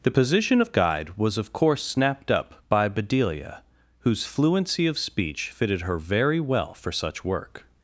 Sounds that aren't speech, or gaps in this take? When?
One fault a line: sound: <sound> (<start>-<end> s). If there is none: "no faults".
no faults